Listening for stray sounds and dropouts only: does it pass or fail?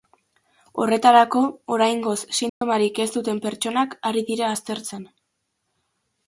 fail